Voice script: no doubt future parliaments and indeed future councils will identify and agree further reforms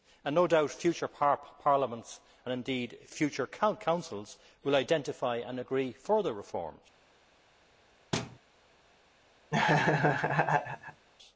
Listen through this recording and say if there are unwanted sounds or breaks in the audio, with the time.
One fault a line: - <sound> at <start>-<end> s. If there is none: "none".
- thud at 8.1-8.4 s
- laugh at 9.5-11.1 s